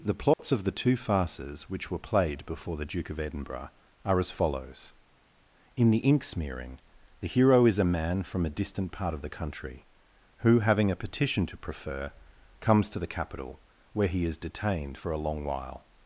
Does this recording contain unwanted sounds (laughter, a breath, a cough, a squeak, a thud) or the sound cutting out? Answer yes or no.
yes